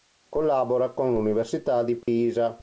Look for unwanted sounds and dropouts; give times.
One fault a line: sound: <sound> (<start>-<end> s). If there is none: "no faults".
sound: dropout (2.0-2.1 s)